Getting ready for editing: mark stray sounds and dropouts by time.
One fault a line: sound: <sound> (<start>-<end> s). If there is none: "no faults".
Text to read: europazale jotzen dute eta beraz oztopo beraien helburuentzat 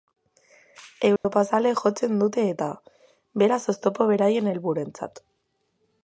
sound: dropout (1.2-1.2 s)